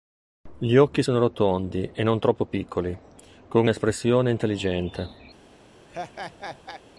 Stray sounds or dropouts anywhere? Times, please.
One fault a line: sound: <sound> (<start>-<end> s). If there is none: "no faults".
sound: laugh (5.9-6.8 s)